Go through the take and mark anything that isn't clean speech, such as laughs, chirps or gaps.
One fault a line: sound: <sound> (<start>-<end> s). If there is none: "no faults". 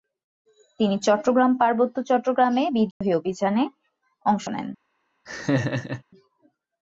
sound: dropout (2.9-3.0 s)
sound: laugh (5.3-6.0 s)